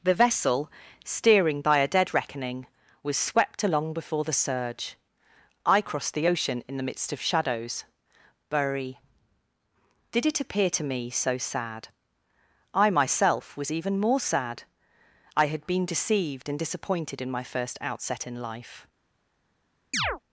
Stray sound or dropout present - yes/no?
yes